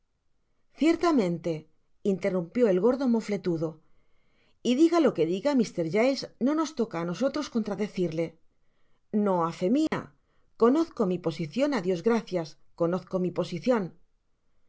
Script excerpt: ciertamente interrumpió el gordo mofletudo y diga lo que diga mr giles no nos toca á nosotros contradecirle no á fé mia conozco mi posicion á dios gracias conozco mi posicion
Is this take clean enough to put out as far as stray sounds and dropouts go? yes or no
no